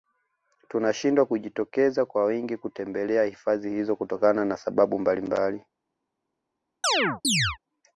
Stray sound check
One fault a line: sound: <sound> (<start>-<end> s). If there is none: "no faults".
sound: chirp (6.8-7.6 s)